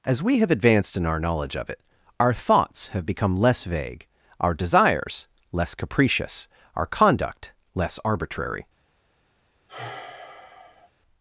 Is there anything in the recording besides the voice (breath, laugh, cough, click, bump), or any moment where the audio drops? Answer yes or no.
yes